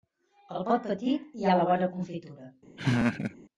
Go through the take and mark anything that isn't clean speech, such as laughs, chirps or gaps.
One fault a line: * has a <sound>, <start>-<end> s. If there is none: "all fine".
* has a laugh, 2.8-3.4 s